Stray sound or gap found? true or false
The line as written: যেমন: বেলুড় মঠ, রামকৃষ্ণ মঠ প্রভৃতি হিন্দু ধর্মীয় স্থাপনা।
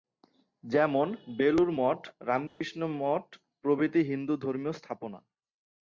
true